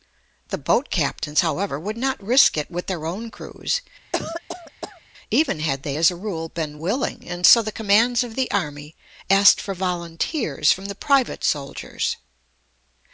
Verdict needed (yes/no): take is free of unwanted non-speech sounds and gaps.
no